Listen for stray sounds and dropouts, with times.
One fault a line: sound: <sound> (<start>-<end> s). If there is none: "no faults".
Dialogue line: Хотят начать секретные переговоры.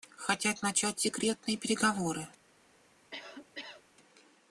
sound: cough (3.1-3.8 s)